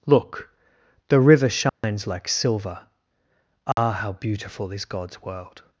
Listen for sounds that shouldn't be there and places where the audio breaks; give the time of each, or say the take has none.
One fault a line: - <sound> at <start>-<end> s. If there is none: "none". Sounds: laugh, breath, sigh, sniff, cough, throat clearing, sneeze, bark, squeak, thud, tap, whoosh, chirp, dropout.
- dropout at 1.7-1.8 s
- dropout at 3.7-3.8 s